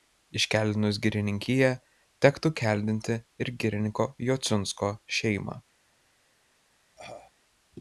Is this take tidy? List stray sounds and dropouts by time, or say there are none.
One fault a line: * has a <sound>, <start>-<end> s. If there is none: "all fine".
* has a cough, 7.0-7.3 s